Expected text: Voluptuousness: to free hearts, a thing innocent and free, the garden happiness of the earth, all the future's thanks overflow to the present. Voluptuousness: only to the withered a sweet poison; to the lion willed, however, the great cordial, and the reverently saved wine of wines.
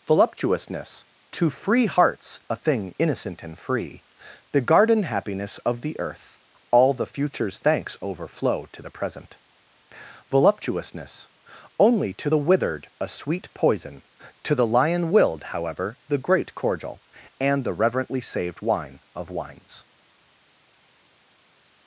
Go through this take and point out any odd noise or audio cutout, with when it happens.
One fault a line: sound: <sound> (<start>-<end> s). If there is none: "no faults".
no faults